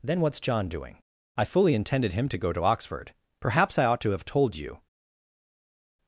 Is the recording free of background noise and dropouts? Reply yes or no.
yes